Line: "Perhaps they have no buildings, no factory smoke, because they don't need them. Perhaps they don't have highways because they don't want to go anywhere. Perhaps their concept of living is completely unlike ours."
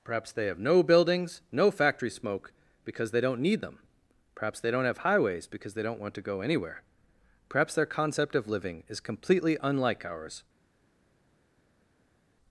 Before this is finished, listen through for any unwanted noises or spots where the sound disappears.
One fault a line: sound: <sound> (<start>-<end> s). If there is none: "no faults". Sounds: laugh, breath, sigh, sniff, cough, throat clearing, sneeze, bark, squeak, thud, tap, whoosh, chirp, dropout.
no faults